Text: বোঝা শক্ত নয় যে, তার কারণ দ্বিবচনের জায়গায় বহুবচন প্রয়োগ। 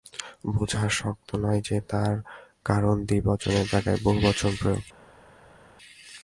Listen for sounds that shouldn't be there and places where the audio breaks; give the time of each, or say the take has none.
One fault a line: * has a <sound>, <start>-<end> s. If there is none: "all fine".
all fine